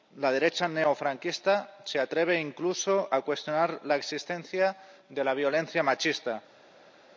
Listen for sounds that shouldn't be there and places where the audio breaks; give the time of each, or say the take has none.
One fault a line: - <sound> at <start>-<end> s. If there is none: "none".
none